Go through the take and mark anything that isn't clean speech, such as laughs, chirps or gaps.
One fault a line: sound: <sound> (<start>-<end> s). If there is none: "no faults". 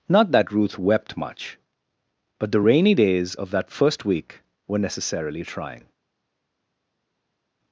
no faults